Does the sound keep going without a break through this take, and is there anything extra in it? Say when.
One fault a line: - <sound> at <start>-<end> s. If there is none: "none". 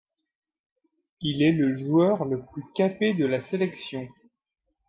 none